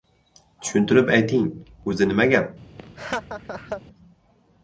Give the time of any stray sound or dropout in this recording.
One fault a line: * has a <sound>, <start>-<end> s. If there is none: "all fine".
* has a laugh, 2.8-3.8 s